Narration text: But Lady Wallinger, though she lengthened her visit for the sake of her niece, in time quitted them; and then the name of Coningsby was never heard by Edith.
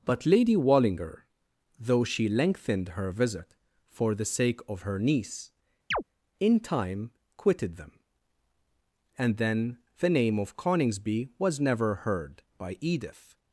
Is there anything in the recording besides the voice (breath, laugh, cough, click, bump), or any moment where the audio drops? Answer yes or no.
yes